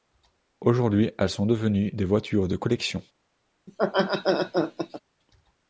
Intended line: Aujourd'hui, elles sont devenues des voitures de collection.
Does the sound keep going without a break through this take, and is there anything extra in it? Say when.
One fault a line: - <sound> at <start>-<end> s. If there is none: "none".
- laugh at 3.7-5.0 s